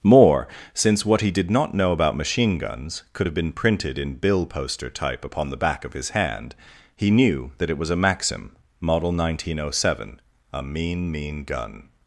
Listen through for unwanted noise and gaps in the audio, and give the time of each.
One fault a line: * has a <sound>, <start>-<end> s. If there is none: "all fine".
all fine